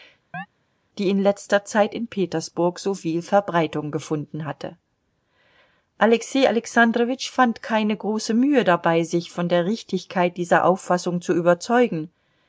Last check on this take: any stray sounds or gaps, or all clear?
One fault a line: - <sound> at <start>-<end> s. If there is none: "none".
- chirp at 0.3-0.5 s